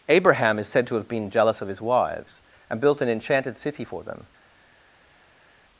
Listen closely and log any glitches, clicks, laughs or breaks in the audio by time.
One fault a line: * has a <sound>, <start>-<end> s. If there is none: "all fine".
all fine